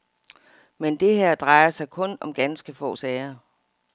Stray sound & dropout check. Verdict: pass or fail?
pass